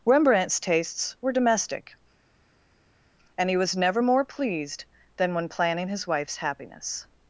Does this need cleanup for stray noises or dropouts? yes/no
no